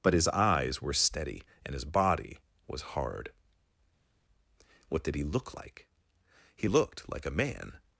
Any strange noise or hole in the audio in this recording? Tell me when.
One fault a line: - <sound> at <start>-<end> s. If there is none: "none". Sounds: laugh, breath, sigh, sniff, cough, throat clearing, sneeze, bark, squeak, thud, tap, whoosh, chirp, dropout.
none